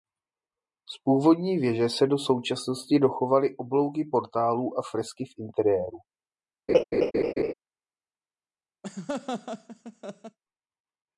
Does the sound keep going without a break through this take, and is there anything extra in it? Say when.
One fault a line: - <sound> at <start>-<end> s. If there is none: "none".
- laugh at 6.7-7.5 s
- laugh at 8.8-10.4 s